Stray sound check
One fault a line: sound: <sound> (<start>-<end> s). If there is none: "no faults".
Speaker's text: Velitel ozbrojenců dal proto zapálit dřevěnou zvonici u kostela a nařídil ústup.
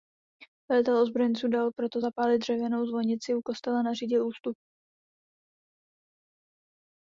no faults